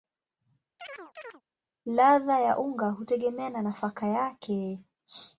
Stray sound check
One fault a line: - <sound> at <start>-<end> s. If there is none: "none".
- chirp at 0.8-1.4 s